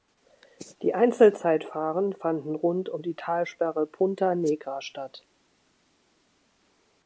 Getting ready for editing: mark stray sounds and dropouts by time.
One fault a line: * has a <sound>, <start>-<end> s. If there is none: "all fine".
all fine